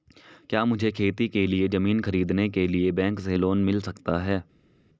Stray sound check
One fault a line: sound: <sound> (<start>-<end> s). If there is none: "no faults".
no faults